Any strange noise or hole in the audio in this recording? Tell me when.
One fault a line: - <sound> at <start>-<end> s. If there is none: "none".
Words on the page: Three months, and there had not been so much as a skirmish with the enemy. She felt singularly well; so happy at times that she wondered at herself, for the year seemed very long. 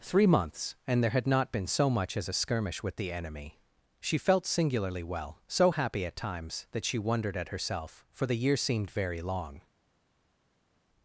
none